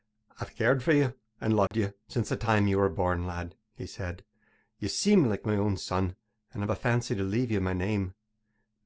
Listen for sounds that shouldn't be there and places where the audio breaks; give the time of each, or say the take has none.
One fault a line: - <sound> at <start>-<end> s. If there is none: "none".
- dropout at 1.7-1.7 s